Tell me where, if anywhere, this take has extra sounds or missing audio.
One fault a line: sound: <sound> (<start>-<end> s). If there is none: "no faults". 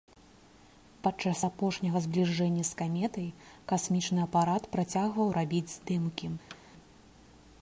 sound: thud (6.5-6.6 s)